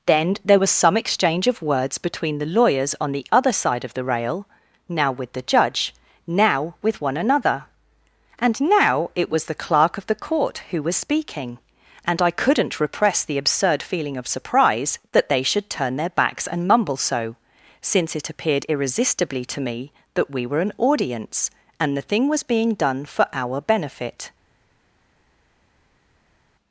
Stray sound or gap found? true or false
false